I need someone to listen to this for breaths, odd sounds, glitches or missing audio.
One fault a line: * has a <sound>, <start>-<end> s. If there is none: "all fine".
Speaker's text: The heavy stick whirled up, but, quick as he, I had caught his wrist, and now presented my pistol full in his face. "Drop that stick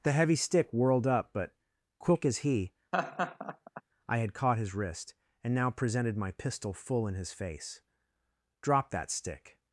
* has a laugh, 2.9-3.8 s